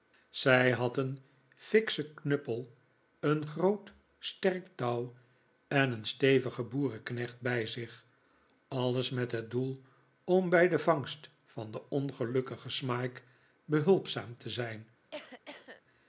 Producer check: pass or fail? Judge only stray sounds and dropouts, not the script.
fail